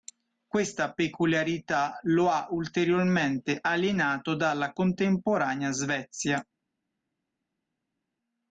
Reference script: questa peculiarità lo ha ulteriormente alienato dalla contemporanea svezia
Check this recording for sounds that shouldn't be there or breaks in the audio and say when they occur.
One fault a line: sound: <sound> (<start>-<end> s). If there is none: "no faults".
no faults